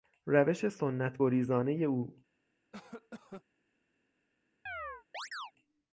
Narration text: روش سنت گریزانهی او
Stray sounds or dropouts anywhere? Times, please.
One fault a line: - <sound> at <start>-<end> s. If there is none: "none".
- cough at 2.7-3.4 s
- chirp at 4.7-5.5 s